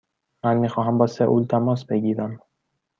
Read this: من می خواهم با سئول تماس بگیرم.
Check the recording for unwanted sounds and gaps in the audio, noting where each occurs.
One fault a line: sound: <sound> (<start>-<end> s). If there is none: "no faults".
no faults